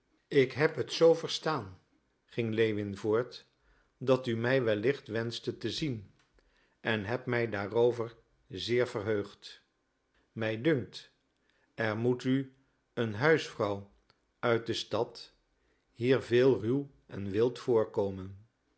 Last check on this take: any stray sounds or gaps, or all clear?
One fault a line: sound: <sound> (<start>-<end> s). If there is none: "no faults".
no faults